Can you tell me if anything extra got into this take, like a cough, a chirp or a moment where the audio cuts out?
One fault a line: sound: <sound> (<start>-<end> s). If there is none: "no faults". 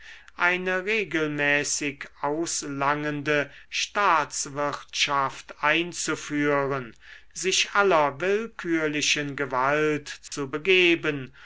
sound: dropout (10.3-10.3 s)